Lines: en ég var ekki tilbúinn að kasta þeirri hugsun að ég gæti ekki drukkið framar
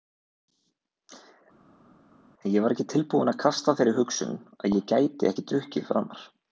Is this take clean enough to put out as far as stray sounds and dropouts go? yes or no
yes